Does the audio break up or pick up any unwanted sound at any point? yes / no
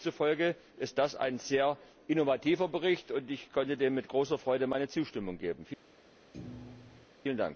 yes